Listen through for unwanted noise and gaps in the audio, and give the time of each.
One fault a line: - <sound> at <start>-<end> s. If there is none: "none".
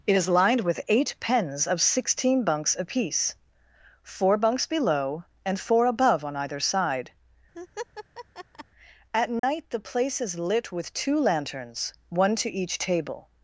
- laugh at 7.5-8.6 s
- dropout at 9.4-9.4 s